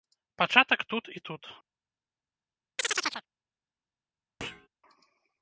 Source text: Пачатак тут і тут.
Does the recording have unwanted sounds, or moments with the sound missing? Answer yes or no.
yes